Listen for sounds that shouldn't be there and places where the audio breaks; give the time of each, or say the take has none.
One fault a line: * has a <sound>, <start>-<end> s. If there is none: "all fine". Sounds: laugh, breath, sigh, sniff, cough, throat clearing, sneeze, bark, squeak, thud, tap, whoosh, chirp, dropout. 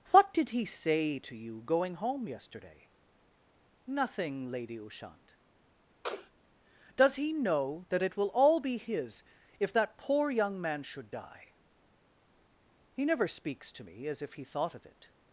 * has a sniff, 6.0-6.3 s